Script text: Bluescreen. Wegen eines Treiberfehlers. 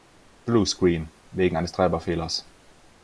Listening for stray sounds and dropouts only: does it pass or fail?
pass